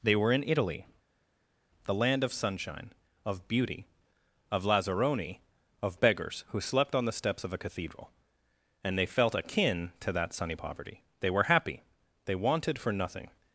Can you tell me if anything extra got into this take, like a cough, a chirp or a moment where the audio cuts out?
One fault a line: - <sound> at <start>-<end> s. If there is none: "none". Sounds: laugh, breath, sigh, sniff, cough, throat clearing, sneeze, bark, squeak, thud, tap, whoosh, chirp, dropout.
none